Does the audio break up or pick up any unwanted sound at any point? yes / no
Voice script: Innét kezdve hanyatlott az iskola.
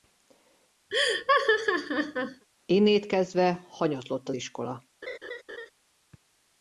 yes